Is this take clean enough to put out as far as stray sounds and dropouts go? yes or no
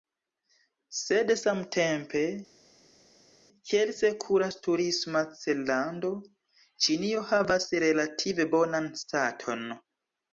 yes